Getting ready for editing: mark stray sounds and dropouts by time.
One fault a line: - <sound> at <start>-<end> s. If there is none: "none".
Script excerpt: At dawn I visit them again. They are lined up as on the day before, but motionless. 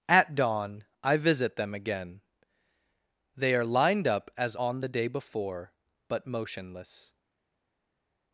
none